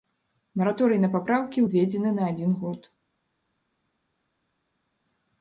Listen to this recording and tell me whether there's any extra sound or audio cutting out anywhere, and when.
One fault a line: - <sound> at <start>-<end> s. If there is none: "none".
none